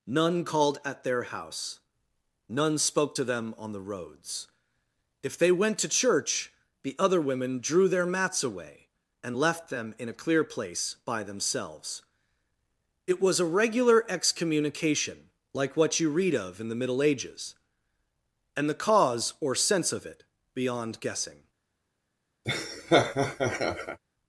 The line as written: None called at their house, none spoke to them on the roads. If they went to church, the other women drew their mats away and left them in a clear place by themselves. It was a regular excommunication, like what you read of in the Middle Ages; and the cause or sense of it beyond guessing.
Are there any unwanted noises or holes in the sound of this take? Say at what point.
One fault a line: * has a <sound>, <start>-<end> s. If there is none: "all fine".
* has a laugh, 22.4-24.0 s